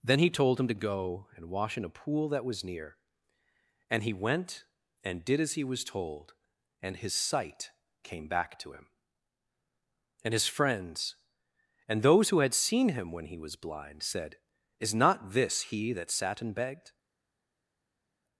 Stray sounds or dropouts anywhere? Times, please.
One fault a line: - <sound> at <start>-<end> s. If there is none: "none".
none